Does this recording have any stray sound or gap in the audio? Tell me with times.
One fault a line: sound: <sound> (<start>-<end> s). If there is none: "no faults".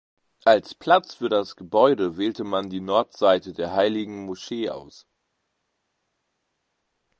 no faults